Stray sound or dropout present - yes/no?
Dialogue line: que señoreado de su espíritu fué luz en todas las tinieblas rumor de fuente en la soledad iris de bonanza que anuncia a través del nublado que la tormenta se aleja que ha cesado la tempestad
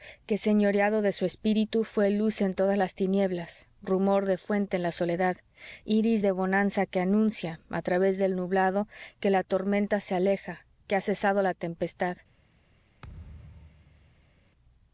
yes